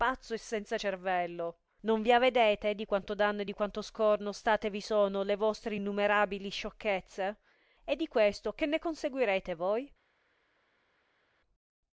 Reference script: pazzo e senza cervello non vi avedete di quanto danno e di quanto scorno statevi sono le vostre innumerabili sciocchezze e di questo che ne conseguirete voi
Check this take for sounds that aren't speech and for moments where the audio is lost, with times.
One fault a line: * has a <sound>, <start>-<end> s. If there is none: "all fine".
all fine